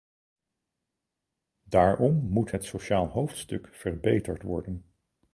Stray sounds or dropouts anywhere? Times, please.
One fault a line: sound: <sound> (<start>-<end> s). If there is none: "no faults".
no faults